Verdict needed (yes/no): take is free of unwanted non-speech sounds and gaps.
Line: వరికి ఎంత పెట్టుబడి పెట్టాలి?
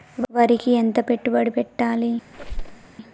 no